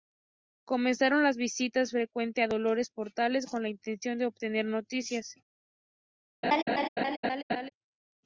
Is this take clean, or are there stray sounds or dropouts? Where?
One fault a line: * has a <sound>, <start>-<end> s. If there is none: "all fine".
* has a laugh, 6.4-7.7 s